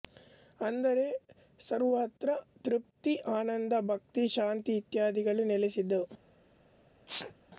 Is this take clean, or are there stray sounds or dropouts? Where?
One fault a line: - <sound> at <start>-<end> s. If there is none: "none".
- sneeze at 7.1-7.3 s